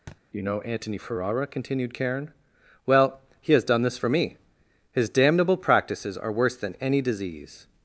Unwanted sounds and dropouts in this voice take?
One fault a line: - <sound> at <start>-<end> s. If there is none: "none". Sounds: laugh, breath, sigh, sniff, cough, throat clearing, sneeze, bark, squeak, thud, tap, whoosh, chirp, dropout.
- thud at 0.1-0.2 s